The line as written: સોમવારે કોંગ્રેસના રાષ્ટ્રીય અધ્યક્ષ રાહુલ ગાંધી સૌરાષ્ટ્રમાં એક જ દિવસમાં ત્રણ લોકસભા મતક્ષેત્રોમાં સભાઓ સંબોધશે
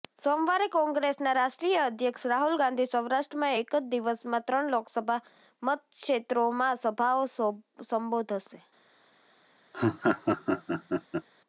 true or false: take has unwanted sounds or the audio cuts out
true